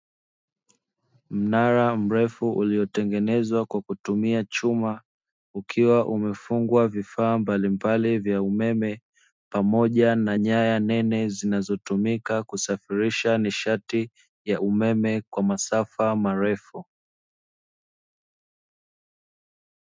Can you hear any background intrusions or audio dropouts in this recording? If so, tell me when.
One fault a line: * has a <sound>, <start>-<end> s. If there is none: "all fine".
all fine